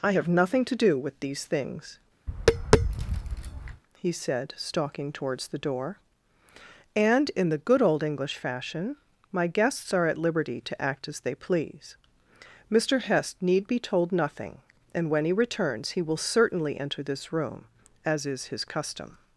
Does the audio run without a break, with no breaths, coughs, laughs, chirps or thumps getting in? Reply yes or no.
no